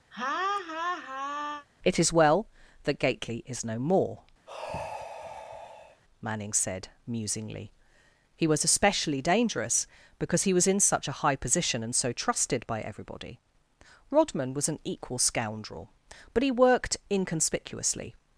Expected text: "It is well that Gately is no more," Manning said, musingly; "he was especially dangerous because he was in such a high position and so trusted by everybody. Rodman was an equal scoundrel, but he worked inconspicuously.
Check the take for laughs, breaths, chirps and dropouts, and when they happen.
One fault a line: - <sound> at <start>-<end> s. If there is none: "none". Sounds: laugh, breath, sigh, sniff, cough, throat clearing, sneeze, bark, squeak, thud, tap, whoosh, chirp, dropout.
- laugh at 0.1-1.7 s
- sigh at 4.5-6.0 s